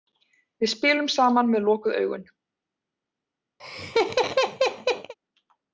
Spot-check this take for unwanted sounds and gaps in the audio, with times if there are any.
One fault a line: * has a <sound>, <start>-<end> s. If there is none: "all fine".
* has a laugh, 3.6-5.1 s